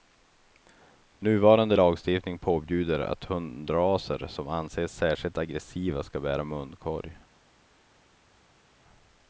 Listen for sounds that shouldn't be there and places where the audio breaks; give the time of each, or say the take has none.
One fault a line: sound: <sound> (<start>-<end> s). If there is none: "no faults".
no faults